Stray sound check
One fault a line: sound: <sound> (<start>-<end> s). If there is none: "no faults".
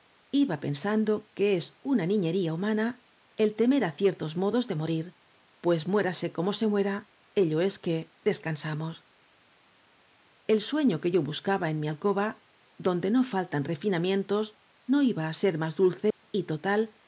sound: dropout (16.1-16.2 s)